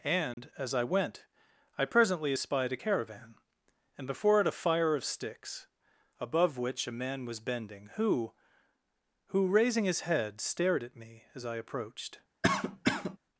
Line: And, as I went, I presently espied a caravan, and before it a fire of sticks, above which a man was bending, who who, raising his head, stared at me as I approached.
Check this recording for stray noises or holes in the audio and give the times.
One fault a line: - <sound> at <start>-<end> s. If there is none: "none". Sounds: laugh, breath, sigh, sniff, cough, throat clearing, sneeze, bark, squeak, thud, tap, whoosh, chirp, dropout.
- dropout at 0.3-0.4 s
- cough at 12.4-13.2 s